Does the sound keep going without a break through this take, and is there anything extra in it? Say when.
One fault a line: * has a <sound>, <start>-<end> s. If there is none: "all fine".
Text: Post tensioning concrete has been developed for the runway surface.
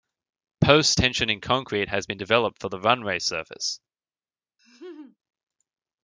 * has a laugh, 4.6-5.2 s